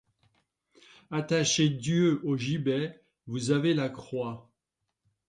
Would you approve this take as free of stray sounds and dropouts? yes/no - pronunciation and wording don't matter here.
yes